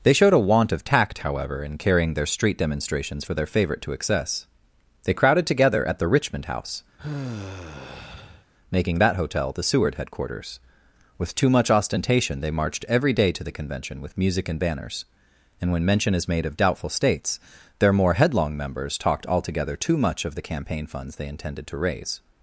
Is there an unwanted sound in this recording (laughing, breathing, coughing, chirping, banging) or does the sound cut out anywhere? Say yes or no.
yes